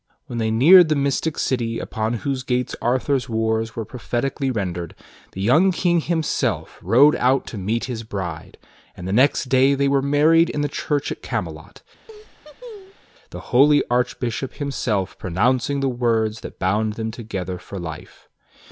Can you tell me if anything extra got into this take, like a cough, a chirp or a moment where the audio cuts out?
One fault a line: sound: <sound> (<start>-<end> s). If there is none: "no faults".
sound: laugh (12.1-13.0 s)